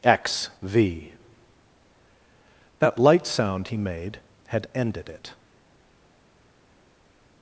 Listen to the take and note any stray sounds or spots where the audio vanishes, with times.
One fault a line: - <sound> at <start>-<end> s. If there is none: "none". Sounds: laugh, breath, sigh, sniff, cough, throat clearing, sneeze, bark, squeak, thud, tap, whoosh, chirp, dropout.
none